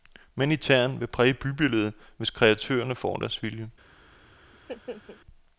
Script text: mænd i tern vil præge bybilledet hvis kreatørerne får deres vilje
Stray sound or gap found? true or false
true